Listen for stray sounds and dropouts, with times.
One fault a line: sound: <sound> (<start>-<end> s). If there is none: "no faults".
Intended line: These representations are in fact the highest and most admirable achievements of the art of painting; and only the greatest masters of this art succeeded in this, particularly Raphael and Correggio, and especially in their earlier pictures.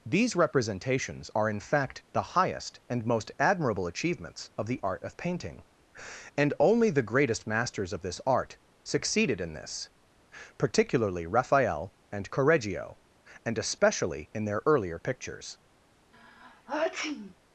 sound: sneeze (16.1-17.3 s)